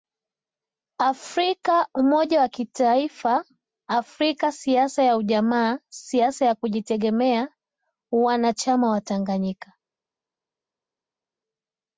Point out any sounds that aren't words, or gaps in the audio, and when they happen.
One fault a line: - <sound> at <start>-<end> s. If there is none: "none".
none